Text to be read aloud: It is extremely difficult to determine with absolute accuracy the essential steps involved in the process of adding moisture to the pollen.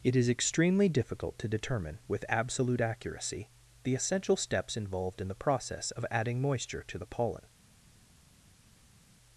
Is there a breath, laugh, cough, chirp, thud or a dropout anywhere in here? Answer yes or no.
no